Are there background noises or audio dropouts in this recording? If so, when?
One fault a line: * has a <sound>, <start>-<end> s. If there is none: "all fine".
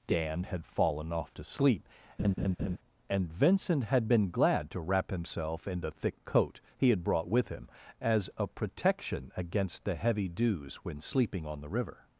* has a laugh, 2.2-2.8 s